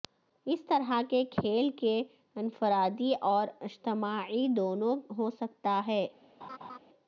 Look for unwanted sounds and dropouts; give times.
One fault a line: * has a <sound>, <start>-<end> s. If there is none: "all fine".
* has a laugh, 6.4-6.8 s